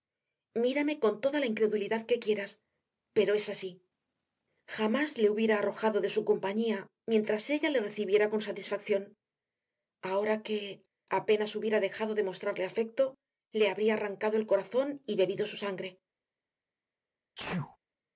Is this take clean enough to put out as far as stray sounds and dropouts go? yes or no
no